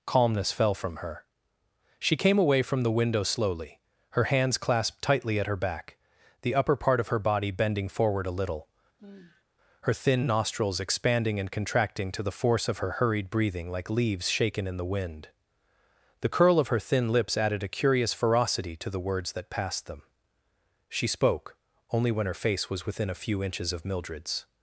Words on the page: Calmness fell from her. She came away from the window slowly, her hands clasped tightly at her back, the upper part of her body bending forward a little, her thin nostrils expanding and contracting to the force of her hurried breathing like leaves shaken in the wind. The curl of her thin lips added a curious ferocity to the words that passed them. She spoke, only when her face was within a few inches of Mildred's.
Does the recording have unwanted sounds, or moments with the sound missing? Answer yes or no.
yes